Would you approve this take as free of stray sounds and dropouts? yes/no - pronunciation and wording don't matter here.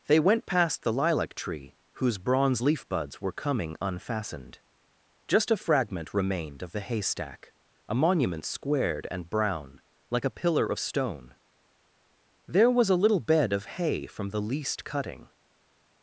yes